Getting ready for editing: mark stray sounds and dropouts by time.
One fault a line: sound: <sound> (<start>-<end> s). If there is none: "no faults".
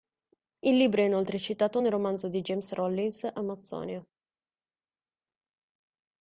no faults